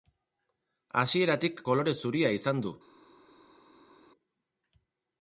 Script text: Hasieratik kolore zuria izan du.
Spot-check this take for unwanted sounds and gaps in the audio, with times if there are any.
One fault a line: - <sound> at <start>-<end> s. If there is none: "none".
none